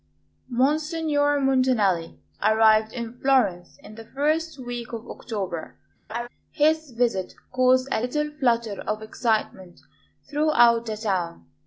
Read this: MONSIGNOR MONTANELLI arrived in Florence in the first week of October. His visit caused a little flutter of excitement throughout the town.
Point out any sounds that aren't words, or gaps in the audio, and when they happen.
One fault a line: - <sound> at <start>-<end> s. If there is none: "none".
- laugh at 6.1-6.3 s